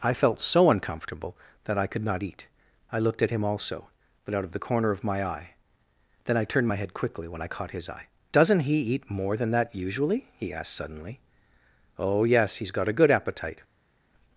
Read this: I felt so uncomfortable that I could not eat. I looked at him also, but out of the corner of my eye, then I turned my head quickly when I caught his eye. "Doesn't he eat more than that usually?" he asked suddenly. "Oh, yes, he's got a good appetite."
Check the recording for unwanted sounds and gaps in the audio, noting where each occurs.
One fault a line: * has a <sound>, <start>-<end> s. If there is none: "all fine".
all fine